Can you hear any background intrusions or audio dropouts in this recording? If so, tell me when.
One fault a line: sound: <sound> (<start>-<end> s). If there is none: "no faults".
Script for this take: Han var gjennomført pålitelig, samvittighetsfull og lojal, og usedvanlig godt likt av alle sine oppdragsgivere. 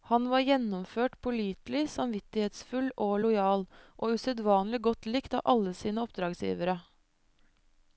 no faults